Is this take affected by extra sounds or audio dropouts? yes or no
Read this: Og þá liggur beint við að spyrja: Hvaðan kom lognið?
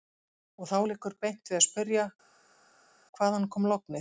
no